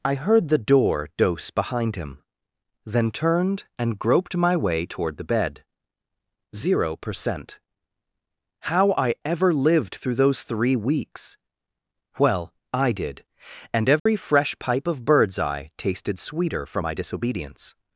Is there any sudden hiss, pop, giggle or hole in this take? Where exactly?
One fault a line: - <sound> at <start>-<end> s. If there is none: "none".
- dropout at 14.0-14.1 s